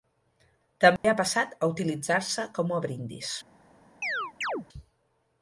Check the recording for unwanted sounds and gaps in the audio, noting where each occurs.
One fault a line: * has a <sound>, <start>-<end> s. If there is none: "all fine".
* has a dropout, 1.0-1.0 s
* has a chirp, 4.0-4.7 s